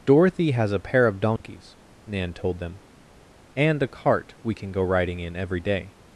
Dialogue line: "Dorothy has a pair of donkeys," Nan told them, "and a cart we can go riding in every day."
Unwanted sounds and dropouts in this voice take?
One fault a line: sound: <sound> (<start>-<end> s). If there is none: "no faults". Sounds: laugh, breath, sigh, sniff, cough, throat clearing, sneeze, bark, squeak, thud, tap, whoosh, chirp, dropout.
sound: dropout (1.4-1.4 s)